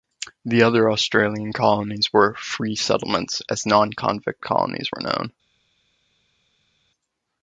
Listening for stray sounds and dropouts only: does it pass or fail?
pass